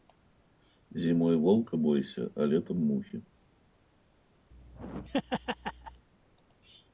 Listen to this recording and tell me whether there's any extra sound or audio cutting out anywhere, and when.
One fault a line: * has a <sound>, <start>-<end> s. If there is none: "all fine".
* has a laugh, 4.5-6.1 s